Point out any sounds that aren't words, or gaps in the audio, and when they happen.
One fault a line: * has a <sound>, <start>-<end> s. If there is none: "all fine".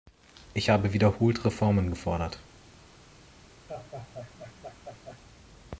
* has a laugh, 3.7-5.2 s